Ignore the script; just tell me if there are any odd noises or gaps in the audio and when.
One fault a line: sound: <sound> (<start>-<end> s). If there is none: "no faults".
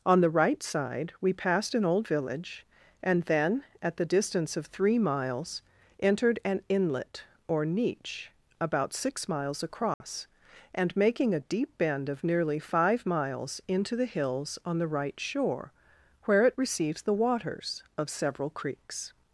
sound: dropout (9.9-10.0 s)